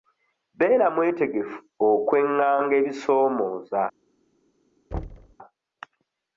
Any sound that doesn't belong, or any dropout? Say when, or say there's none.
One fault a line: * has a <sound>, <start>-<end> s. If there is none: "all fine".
* has a thud, 4.9-5.4 s